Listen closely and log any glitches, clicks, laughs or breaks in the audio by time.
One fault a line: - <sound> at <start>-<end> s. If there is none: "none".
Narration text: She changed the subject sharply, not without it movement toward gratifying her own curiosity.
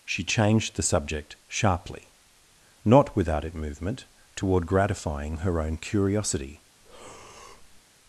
- breath at 6.8-7.8 s